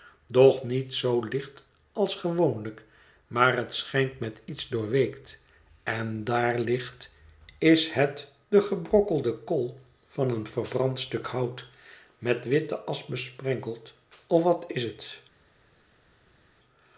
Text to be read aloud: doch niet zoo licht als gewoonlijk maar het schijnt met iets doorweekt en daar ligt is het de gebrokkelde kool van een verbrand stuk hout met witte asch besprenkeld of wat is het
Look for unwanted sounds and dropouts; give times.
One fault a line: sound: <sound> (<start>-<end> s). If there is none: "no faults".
no faults